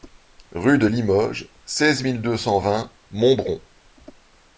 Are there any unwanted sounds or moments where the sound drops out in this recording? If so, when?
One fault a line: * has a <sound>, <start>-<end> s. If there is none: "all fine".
all fine